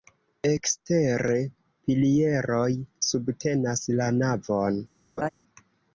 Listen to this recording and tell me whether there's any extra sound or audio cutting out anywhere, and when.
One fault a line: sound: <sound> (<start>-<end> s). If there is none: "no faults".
sound: laugh (5.2-5.3 s)